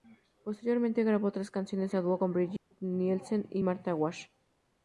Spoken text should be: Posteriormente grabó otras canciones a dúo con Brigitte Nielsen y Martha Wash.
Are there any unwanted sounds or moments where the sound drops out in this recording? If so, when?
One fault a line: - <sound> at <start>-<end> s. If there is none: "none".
- dropout at 2.6-2.7 s